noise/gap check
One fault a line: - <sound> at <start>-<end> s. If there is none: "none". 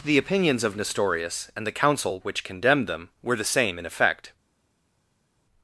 none